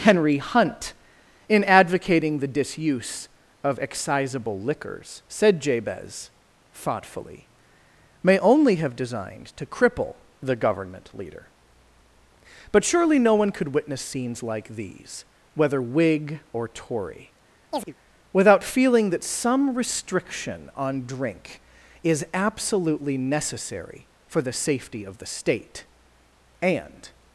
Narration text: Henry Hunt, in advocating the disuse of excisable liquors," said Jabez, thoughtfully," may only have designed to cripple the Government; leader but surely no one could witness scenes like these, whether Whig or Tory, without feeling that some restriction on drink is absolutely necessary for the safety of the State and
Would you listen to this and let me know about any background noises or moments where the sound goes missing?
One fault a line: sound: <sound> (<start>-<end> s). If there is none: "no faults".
sound: chirp (17.7-17.9 s)